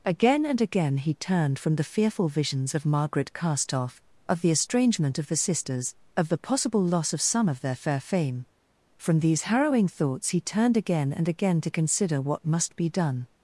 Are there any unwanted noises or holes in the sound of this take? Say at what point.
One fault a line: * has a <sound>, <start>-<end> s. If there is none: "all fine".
all fine